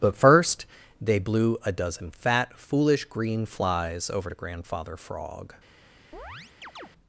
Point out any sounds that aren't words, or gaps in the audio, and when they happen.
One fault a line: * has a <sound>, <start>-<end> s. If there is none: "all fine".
* has a chirp, 6.1-6.9 s